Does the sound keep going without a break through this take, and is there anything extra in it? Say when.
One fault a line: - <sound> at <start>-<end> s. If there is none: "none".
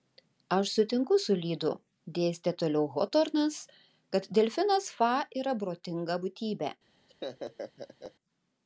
- laugh at 7.1-8.1 s